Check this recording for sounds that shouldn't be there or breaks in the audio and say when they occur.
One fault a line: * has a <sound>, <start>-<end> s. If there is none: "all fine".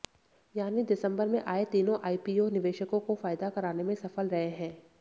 all fine